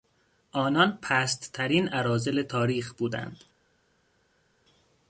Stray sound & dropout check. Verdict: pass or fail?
pass